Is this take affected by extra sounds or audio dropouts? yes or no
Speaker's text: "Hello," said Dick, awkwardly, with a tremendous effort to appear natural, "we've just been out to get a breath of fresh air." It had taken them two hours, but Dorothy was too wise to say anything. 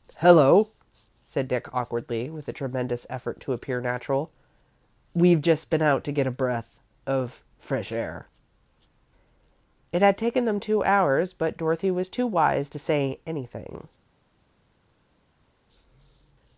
no